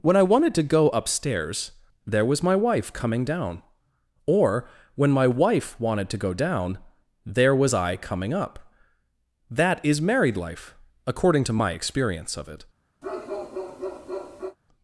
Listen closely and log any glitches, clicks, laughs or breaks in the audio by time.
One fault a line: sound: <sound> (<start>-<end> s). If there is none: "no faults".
sound: bark (13.0-14.6 s)